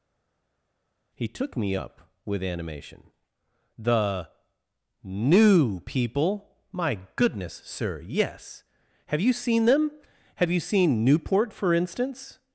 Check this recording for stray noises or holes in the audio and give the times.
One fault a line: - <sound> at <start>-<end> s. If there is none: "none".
none